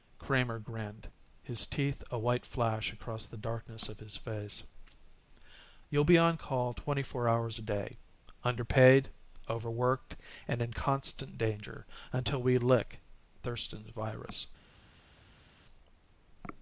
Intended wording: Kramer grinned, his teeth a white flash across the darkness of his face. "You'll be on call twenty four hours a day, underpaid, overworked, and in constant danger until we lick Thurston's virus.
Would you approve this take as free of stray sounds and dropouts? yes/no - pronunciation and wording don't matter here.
yes